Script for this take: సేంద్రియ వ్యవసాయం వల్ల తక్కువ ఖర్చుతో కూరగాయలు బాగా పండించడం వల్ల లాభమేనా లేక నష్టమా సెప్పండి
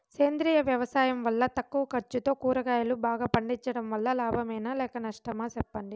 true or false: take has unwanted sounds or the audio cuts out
false